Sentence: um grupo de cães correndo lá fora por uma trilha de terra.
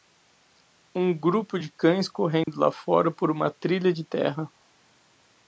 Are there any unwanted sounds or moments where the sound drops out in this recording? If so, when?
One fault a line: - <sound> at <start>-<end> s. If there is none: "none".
- dropout at 2.4-2.5 s